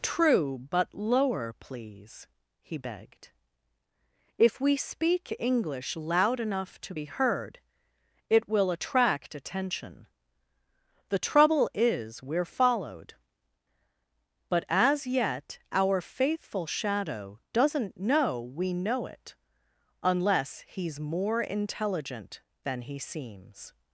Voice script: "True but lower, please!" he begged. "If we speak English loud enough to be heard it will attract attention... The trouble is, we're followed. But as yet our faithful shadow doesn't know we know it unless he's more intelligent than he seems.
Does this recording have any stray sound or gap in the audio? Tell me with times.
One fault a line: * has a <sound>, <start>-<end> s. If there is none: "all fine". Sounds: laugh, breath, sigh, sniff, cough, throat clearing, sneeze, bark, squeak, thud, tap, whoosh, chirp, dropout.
all fine